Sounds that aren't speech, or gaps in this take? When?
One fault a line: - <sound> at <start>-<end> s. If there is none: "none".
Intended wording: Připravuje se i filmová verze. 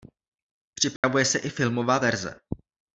- dropout at 1.0-1.0 s